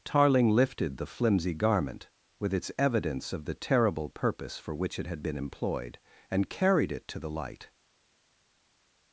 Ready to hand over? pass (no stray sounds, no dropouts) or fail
pass